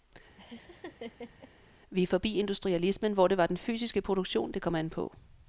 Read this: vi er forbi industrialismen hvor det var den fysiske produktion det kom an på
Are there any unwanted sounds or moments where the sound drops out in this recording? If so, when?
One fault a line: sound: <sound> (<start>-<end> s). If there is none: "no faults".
sound: laugh (0.4-1.5 s)